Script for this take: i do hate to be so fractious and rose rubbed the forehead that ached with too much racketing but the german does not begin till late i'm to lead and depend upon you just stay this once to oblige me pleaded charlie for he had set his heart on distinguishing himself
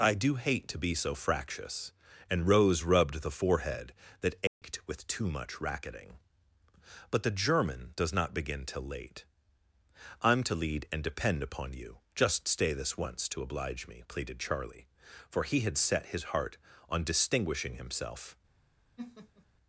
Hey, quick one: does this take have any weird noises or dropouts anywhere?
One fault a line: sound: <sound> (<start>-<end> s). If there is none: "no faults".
sound: dropout (4.5-4.6 s)
sound: laugh (19.0-19.5 s)